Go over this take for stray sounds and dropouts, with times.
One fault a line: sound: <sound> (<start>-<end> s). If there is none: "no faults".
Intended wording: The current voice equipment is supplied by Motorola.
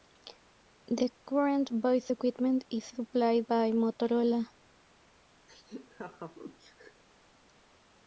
sound: laugh (5.5-7.0 s)